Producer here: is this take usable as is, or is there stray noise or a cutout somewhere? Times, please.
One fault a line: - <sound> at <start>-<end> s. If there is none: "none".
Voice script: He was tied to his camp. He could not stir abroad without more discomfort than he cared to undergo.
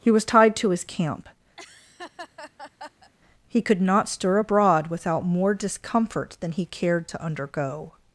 - laugh at 1.6-3.1 s